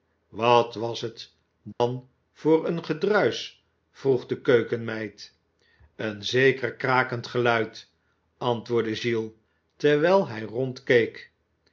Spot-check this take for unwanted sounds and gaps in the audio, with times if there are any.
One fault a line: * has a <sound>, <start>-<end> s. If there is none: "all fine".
* has a dropout, 1.7-1.8 s